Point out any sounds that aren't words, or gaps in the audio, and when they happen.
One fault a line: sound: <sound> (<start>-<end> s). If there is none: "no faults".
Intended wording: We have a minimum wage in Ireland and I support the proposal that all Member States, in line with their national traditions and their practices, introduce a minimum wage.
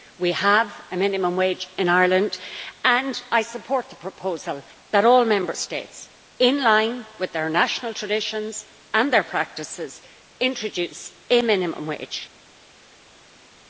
no faults